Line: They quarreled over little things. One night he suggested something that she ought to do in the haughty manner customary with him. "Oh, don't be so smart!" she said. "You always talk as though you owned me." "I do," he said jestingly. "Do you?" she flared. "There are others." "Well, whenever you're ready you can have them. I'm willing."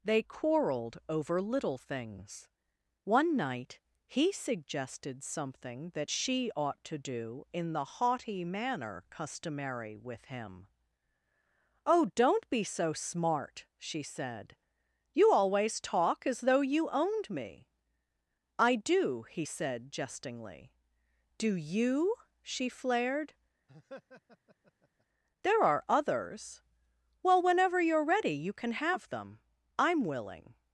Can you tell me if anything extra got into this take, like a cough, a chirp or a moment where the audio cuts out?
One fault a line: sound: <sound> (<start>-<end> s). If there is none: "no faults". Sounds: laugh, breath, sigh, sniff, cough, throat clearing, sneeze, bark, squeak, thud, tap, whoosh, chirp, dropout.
sound: laugh (23.7-25.1 s)